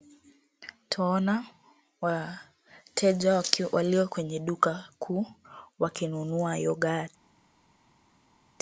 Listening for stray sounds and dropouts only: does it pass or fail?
pass